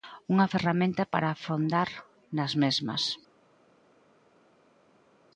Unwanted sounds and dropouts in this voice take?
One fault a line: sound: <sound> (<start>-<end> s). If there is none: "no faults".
no faults